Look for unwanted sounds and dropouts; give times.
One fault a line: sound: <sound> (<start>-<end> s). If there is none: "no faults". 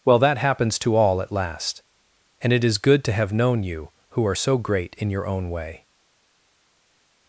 no faults